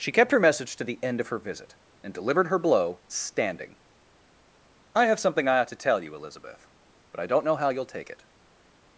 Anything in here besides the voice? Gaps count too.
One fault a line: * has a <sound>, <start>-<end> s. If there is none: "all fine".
all fine